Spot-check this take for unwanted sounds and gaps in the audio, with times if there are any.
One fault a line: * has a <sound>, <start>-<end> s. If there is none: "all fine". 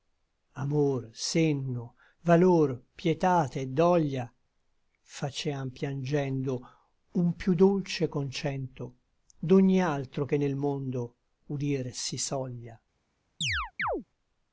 * has a chirp, 13.4-14.0 s